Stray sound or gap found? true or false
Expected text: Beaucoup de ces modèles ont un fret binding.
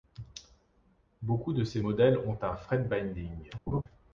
true